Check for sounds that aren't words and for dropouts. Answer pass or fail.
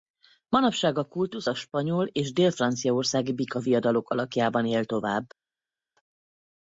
pass